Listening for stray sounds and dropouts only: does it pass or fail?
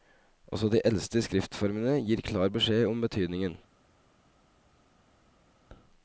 pass